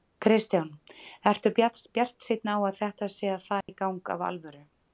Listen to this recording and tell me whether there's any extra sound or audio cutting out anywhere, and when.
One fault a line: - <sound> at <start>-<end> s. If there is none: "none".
- dropout at 3.6-3.7 s